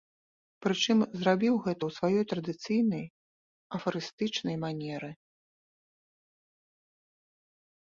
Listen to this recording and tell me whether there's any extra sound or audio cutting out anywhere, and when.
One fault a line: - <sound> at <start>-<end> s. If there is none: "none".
none